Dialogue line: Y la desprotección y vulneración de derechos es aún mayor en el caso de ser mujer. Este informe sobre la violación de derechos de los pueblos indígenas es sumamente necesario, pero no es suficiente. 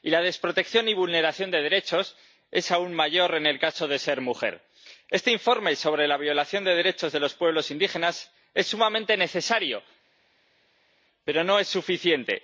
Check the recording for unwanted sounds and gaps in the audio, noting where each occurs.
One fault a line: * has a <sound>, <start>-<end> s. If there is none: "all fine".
all fine